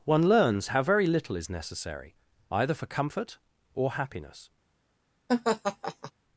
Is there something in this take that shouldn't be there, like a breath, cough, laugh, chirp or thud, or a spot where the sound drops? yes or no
yes